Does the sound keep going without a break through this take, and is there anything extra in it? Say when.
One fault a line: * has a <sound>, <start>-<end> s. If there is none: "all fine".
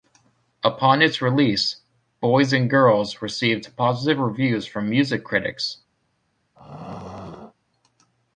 * has a throat clearing, 6.6-7.5 s